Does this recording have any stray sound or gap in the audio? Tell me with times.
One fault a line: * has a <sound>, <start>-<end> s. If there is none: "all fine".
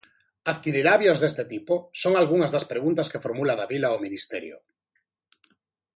all fine